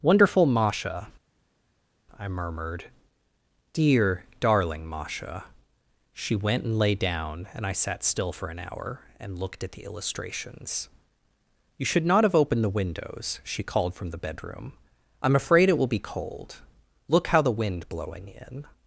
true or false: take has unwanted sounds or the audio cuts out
false